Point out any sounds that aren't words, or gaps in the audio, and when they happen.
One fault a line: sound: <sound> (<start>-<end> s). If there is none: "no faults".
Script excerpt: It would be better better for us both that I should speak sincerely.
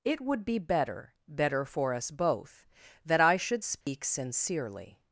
sound: dropout (3.8-3.9 s)